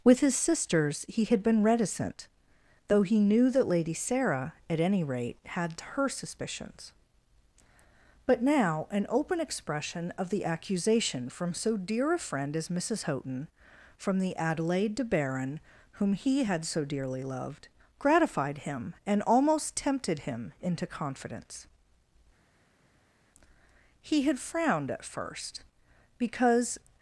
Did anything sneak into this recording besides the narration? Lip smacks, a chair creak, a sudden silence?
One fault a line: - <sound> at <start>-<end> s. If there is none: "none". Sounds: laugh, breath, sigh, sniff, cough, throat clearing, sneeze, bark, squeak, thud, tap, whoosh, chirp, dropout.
none